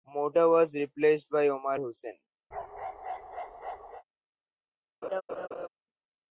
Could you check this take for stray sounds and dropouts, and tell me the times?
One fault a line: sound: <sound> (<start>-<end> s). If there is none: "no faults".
sound: bark (2.5-4.0 s)
sound: laugh (5.0-5.7 s)